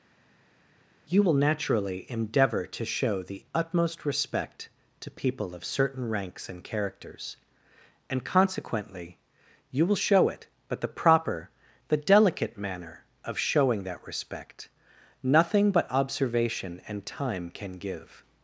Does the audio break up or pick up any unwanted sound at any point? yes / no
no